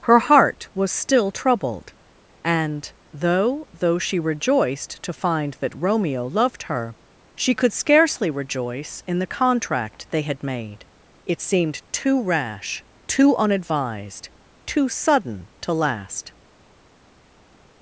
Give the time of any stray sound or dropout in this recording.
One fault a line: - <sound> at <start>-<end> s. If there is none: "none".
none